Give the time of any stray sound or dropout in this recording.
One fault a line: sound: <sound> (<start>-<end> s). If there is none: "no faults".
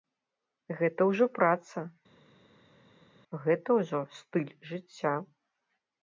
no faults